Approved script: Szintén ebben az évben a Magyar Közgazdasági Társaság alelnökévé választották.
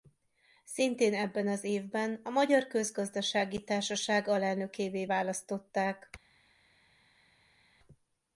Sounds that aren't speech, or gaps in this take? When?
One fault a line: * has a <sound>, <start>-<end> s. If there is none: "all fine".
all fine